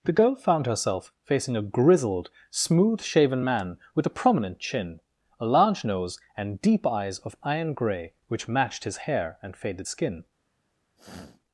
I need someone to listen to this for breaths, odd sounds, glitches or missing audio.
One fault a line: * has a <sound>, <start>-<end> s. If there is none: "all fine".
* has a sniff, 11.0-11.4 s